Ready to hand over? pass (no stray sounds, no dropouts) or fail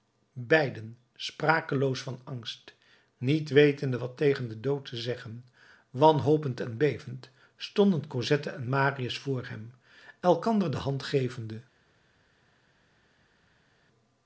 pass